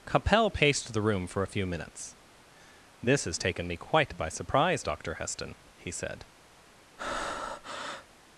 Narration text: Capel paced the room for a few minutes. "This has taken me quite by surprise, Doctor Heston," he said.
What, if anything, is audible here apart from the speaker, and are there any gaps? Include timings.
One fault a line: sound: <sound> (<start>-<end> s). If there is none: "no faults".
sound: breath (7.0-8.1 s)